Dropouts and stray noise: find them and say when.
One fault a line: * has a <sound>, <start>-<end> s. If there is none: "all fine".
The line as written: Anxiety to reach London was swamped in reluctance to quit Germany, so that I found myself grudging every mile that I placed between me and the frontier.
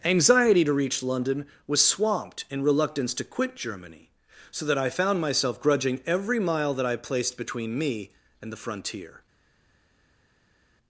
all fine